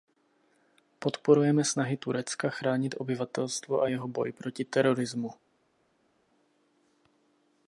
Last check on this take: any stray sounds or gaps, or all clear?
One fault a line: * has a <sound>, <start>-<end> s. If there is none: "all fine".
all fine